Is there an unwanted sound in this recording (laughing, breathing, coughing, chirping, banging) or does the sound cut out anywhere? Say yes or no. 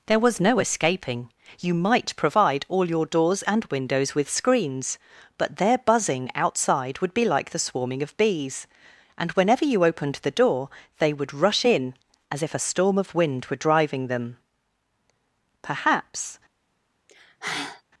yes